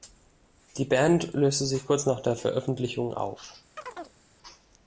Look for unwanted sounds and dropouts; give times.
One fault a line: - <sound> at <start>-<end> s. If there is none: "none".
- chirp at 3.8-4.2 s